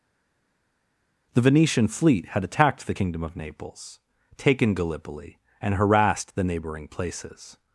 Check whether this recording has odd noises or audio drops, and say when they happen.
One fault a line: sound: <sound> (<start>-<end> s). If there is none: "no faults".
no faults